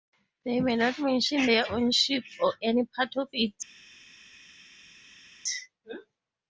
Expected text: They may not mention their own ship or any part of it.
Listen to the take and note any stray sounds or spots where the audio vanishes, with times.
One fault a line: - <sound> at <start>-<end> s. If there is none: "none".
none